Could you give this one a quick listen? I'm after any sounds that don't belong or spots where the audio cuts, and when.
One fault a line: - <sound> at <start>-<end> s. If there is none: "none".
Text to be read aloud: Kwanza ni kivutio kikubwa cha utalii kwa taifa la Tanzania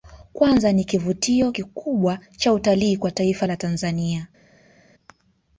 none